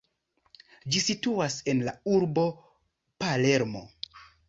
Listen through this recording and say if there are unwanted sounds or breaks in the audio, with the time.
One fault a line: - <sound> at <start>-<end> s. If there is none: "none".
none